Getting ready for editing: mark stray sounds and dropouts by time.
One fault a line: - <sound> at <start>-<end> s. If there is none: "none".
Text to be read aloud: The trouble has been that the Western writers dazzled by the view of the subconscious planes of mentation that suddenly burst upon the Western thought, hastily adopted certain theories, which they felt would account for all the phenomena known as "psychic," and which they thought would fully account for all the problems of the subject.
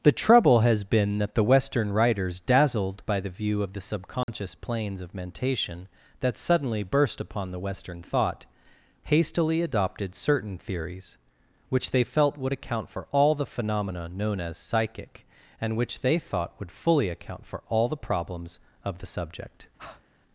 - dropout at 4.2-4.3 s
- breath at 19.8-20.0 s